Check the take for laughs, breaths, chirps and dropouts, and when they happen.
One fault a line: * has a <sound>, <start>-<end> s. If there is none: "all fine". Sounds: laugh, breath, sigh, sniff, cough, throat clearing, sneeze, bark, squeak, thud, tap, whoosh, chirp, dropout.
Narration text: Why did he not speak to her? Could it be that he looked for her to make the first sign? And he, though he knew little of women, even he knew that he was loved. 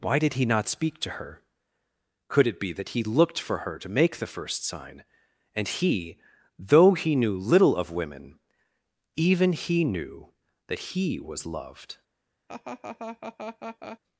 * has a laugh, 12.5-14.0 s